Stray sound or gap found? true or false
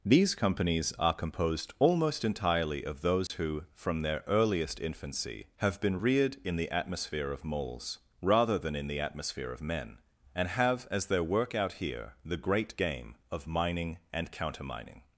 true